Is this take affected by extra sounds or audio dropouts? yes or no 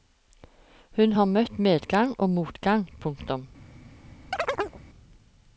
yes